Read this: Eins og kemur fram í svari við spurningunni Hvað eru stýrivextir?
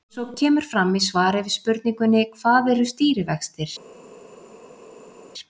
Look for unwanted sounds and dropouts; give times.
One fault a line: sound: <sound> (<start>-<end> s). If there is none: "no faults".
no faults